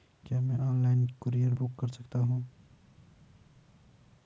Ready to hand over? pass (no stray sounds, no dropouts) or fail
pass